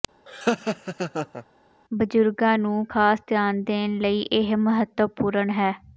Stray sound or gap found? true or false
true